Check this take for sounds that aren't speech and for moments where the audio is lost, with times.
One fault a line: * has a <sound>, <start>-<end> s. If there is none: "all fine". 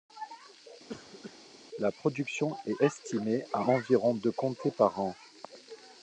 * has a cough, 0.9-1.4 s